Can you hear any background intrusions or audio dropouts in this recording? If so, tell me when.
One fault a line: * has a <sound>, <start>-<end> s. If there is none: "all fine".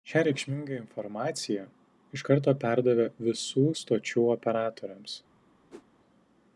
* has a whoosh, 5.7-5.8 s